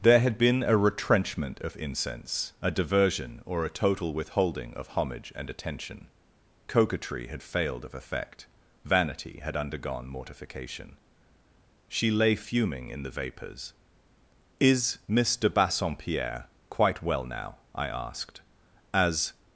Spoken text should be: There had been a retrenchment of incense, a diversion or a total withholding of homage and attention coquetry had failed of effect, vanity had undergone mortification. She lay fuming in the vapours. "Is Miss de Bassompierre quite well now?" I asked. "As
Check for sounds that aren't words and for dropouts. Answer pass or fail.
pass